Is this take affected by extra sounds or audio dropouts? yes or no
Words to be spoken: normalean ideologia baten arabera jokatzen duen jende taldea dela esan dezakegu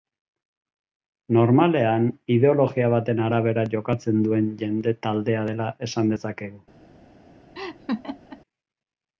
yes